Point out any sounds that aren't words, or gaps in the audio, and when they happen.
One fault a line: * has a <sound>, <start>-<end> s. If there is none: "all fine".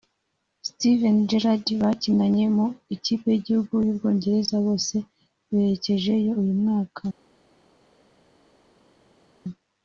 all fine